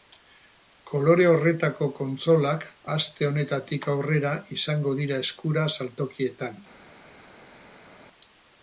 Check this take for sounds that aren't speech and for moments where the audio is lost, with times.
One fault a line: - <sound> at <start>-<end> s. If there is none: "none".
none